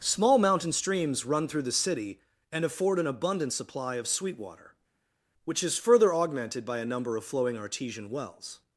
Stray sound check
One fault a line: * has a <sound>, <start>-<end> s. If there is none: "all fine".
all fine